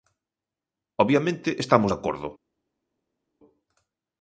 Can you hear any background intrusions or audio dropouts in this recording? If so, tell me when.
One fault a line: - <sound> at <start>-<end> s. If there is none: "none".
none